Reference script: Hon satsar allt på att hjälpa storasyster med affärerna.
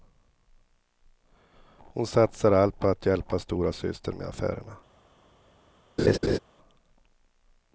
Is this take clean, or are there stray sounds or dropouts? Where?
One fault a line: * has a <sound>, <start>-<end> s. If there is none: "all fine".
* has a laugh, 6.0-6.4 s